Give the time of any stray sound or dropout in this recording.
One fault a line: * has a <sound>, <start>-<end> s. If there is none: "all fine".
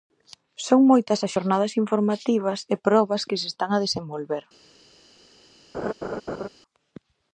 * has a laugh, 5.7-6.5 s